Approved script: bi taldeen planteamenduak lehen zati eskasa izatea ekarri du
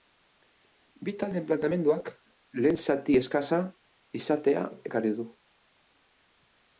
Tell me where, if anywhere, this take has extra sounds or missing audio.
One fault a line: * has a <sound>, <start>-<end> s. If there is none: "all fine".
all fine